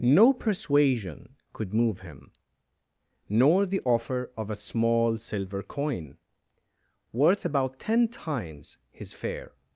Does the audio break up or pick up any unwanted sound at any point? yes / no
no